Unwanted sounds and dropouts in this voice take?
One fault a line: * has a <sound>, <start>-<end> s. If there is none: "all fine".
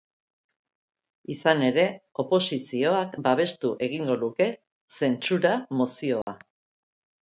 * has a dropout, 6.2-6.3 s